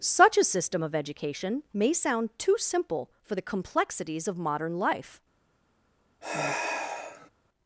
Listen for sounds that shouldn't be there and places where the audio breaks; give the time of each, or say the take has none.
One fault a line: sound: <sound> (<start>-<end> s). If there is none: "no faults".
sound: sigh (6.2-7.3 s)